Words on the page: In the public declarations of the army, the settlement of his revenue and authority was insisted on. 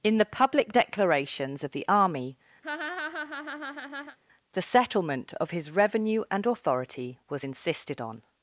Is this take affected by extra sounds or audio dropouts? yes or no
yes